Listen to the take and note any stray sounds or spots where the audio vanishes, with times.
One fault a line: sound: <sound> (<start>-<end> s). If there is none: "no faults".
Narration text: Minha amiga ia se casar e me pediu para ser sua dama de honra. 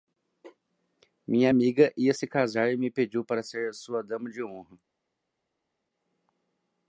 no faults